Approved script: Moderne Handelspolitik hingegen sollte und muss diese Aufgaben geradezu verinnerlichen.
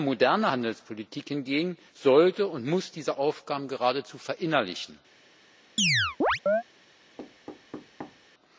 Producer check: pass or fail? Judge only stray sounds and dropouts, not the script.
fail